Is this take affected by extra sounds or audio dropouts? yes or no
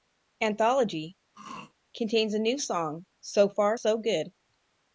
yes